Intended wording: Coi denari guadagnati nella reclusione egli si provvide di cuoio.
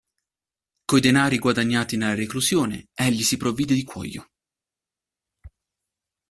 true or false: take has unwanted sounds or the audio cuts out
false